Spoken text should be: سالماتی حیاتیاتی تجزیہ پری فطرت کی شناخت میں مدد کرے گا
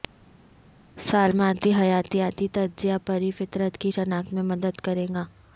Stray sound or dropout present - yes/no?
no